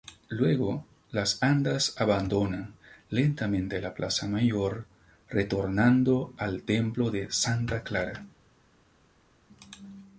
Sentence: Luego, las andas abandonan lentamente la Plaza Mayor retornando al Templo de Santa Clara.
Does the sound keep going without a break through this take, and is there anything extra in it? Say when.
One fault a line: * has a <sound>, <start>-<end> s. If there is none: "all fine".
all fine